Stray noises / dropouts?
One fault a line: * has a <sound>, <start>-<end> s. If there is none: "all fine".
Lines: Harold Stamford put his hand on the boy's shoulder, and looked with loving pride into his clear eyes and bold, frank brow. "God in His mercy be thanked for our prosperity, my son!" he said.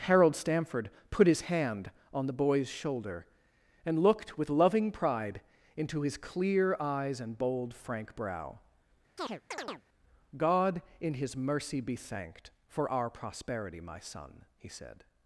* has a chirp, 9.2-9.8 s